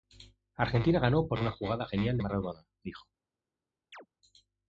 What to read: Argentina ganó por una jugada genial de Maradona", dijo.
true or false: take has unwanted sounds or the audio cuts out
true